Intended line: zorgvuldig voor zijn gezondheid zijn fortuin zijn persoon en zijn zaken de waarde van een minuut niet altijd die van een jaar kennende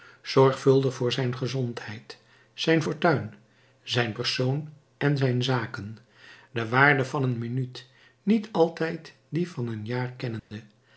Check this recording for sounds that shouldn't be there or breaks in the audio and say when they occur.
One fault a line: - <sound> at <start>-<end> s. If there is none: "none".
- dropout at 10.4-10.5 s